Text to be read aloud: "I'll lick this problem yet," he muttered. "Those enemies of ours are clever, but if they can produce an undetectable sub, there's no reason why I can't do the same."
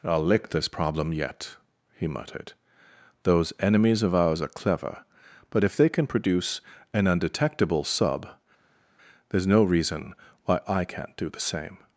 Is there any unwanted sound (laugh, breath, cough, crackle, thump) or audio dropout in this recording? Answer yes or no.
no